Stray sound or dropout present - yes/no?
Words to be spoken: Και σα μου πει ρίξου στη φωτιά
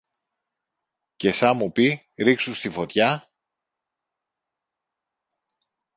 no